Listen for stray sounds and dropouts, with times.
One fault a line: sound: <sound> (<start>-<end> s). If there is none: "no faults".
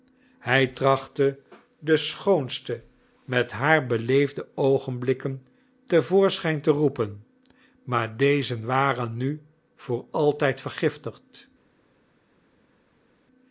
no faults